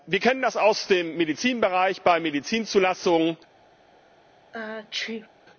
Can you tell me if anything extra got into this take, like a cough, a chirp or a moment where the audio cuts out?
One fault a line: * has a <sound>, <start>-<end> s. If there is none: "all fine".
* has a sneeze, 4.5-5.3 s